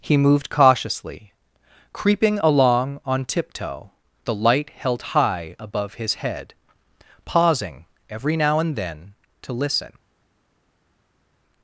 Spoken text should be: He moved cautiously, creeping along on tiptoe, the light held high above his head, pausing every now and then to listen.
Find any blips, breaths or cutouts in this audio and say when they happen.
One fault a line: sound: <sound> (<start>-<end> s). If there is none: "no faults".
no faults